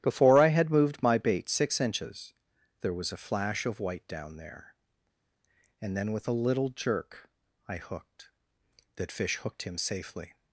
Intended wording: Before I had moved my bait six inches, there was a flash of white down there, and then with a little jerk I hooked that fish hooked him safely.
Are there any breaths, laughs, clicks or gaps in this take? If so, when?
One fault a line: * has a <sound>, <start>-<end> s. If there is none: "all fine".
all fine